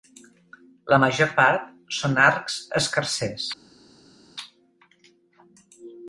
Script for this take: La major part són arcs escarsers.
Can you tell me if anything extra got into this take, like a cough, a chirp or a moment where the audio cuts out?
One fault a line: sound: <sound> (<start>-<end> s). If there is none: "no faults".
no faults